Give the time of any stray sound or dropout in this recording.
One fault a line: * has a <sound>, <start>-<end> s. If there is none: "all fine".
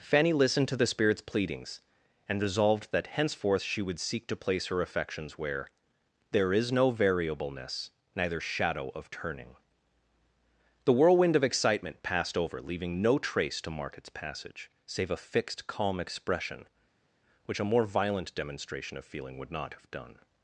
all fine